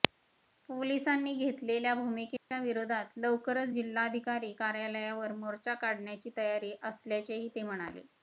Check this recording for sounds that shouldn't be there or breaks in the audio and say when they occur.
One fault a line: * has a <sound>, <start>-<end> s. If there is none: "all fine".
* has a dropout, 2.4-2.5 s